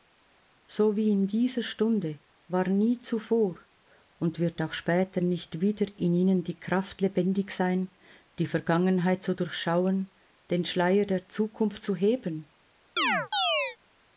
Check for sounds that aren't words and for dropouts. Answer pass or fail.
fail